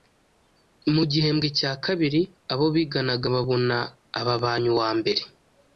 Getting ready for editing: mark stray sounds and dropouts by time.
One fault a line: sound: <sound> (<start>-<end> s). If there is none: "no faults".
no faults